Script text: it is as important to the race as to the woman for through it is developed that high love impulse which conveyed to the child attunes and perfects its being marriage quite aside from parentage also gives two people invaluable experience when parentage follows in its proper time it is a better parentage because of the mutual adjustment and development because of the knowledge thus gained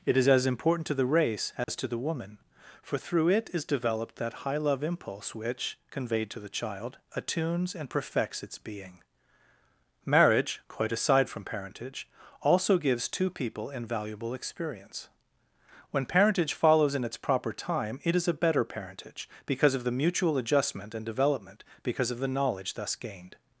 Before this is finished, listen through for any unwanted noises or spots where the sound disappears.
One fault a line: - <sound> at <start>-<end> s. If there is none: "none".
- dropout at 1.6-1.7 s